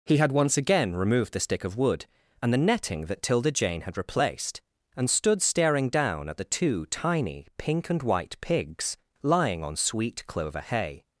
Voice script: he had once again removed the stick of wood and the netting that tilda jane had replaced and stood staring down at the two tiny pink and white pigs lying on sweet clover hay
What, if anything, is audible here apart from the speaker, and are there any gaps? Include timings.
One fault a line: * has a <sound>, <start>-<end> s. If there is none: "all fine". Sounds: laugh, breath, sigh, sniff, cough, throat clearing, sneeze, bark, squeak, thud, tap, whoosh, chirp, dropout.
all fine